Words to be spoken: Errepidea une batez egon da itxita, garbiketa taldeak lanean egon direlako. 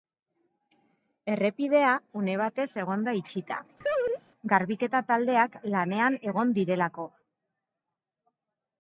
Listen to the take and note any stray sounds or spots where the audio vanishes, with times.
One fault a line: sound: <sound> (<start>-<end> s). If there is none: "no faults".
sound: laugh (3.8-4.2 s)